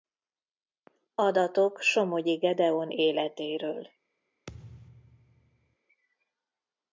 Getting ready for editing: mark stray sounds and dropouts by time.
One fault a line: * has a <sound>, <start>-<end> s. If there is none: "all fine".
* has a thud, 4.5-5.8 s